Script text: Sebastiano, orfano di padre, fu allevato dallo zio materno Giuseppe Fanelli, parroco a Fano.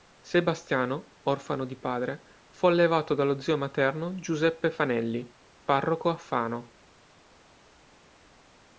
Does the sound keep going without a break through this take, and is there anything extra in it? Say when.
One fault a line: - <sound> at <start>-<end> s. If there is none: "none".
none